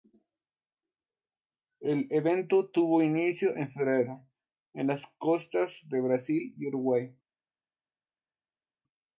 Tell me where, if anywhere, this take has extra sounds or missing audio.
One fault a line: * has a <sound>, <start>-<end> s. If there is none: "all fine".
all fine